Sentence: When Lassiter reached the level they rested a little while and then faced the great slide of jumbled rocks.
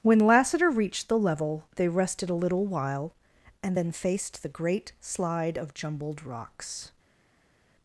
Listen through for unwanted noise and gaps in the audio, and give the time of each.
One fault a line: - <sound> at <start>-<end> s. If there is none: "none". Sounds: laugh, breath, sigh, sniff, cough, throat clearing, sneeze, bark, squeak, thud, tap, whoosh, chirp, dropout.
none